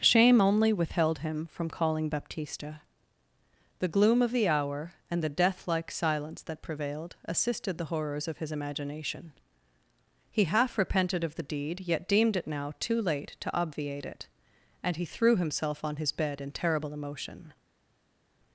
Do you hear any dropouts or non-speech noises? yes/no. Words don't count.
no